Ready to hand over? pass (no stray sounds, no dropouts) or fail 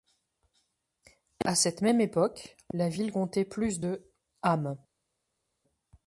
pass